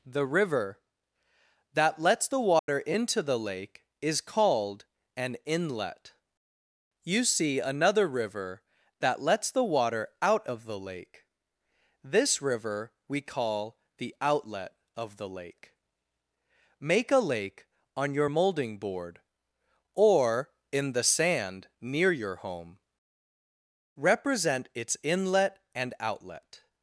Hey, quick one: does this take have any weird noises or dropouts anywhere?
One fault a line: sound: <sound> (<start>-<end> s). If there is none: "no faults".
sound: dropout (2.6-2.7 s)